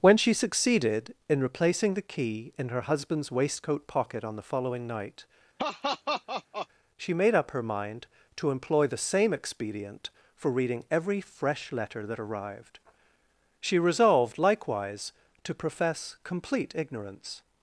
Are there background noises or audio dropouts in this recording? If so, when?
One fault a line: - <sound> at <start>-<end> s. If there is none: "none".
- laugh at 5.6-6.7 s